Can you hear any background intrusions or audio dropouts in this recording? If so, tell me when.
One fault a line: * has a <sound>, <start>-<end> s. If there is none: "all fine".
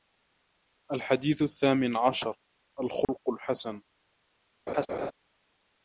* has a dropout, 3.0-3.1 s
* has a laugh, 4.7-5.1 s